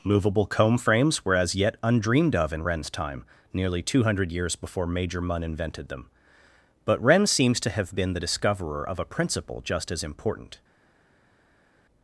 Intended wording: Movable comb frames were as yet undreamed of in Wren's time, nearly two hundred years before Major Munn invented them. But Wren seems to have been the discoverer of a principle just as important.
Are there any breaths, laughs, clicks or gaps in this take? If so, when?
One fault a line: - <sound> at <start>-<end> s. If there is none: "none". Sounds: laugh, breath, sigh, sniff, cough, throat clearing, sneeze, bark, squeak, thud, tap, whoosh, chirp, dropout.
none